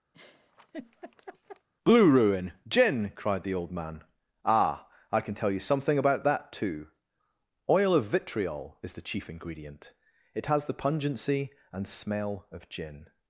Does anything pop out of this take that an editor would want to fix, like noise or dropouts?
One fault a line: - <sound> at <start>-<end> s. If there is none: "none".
- laugh at 0.1-1.7 s